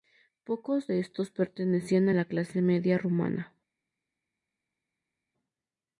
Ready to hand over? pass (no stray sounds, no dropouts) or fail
pass